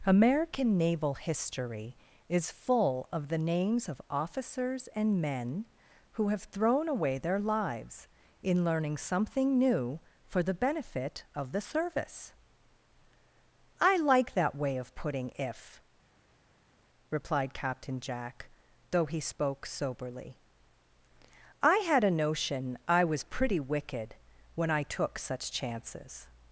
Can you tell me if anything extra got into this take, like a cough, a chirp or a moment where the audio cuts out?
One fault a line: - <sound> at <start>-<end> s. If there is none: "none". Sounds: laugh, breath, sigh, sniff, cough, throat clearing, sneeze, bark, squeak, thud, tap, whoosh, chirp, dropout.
none